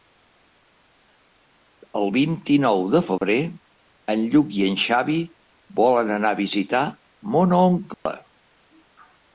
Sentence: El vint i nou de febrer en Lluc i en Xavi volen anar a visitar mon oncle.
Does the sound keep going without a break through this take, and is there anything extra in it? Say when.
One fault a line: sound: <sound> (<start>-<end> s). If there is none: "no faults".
sound: dropout (3.2-3.2 s)
sound: dropout (7.9-8.1 s)